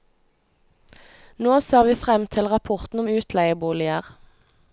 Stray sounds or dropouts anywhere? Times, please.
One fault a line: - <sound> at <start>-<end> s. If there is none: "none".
none